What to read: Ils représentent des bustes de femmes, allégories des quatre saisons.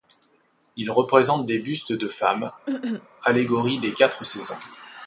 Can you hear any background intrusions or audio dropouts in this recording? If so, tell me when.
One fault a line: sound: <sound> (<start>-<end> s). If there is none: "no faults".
sound: cough (2.7-3.1 s)